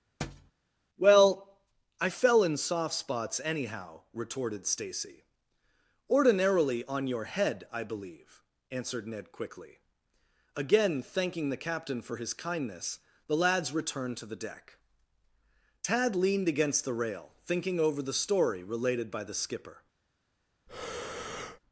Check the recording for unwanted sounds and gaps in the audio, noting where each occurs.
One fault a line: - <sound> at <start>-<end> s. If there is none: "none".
- thud at 0.2-0.5 s
- breath at 20.7-21.6 s